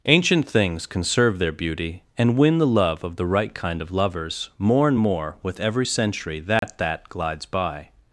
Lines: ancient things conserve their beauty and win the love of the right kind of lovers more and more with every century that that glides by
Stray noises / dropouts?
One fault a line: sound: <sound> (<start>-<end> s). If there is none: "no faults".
sound: dropout (6.6-6.6 s)